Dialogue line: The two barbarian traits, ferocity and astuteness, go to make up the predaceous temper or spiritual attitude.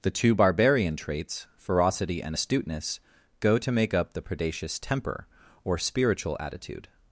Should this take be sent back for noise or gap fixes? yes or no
no